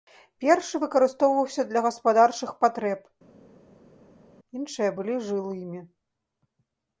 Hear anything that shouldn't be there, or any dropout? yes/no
no